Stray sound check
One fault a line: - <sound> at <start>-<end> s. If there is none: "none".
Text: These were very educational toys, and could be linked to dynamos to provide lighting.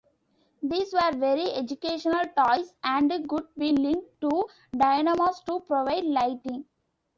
none